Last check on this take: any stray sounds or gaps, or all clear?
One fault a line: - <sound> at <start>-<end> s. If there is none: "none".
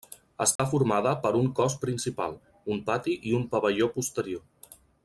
- dropout at 0.6-0.6 s